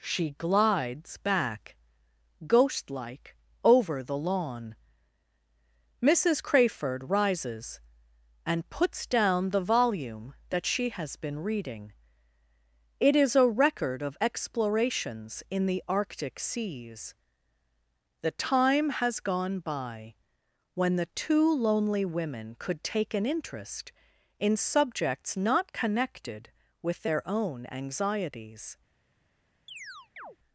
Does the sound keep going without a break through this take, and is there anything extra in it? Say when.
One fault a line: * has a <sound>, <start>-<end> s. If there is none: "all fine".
* has a chirp, 29.7-30.4 s